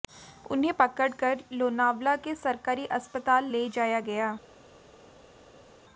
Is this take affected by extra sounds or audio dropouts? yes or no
no